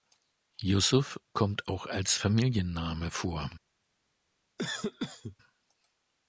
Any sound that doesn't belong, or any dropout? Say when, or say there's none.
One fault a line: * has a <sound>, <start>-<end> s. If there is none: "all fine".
* has a cough, 4.6-5.4 s